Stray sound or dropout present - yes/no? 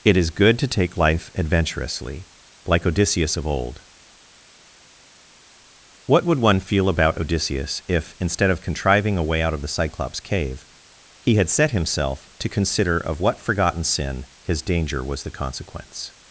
no